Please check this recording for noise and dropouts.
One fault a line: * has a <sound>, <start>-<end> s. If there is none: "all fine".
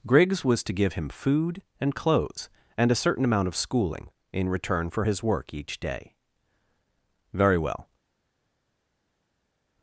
all fine